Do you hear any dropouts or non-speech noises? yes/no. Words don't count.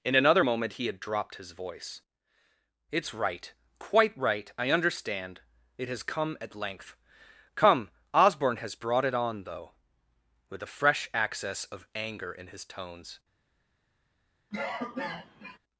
yes